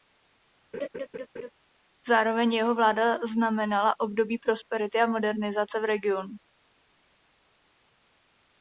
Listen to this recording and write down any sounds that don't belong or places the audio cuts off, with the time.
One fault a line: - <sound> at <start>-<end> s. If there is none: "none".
- laugh at 0.7-1.5 s